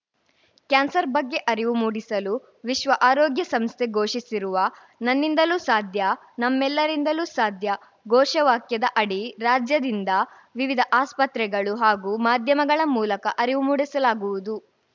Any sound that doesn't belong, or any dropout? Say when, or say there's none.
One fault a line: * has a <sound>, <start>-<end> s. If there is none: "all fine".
all fine